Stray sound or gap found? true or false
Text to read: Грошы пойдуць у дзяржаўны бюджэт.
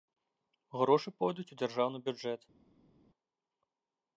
false